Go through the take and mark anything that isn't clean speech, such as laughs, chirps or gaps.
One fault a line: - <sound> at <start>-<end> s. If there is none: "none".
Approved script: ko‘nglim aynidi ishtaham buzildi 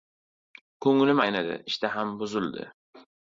none